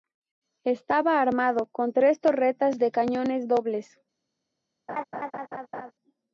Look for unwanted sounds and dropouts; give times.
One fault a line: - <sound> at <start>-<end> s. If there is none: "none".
- laugh at 4.9-5.9 s